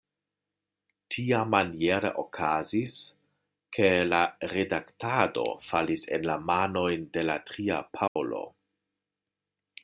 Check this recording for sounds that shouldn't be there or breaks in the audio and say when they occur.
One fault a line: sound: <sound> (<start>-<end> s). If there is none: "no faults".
sound: dropout (8.1-8.2 s)